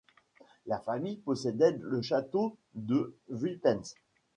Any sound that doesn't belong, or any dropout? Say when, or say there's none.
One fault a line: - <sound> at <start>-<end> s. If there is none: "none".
none